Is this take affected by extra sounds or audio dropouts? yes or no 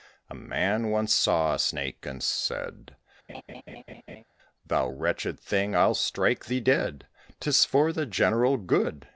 yes